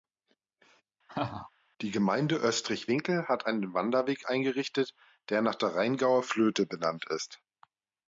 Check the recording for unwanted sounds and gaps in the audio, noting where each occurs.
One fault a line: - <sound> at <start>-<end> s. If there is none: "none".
- laugh at 1.1-1.5 s